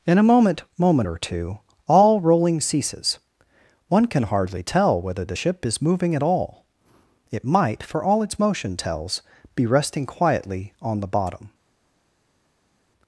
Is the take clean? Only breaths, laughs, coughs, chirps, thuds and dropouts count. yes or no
yes